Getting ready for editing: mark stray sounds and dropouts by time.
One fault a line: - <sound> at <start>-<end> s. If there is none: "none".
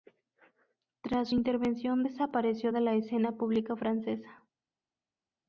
none